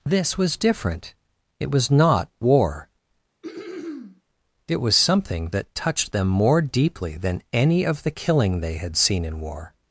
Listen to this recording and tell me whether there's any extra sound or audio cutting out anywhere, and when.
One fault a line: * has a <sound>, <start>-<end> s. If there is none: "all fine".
* has a throat clearing, 3.4-4.2 s